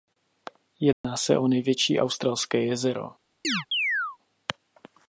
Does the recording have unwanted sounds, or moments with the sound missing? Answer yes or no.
yes